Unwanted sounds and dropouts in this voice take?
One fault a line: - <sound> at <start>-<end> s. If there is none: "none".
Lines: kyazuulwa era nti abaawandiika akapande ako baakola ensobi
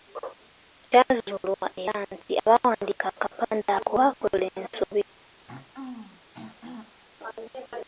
- throat clearing at 5.5-7.0 s